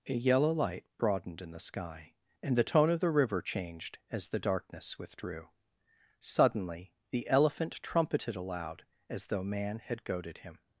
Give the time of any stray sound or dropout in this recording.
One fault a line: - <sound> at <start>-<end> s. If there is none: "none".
none